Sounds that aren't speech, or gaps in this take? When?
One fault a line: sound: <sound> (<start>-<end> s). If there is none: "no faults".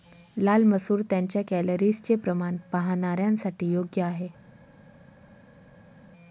no faults